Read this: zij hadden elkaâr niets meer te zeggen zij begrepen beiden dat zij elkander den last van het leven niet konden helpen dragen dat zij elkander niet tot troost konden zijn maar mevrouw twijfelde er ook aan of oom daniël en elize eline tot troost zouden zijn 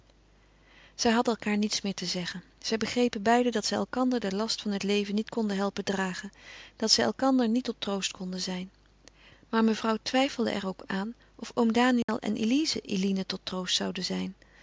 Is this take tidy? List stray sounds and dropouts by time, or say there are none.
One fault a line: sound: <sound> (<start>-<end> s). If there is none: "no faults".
sound: dropout (12.0-12.1 s)